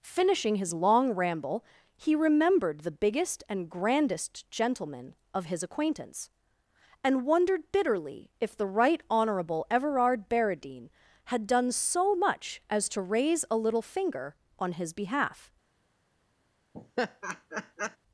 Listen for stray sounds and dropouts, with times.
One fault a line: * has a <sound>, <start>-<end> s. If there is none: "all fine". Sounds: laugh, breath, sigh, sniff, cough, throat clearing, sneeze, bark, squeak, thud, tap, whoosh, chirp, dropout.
* has a laugh, 16.7-18.0 s